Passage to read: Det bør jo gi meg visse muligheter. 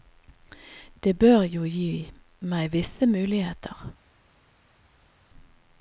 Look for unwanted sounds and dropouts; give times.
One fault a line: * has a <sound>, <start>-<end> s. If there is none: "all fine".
all fine